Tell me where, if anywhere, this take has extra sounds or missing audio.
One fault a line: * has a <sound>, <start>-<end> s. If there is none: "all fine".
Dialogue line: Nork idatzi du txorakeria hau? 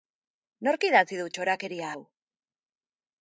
all fine